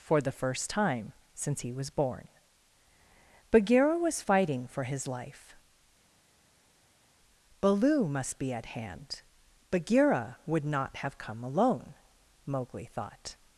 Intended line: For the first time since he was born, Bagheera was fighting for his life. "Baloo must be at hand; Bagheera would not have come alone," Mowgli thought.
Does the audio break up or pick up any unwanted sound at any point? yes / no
no